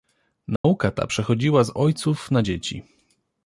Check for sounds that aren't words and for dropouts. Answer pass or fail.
fail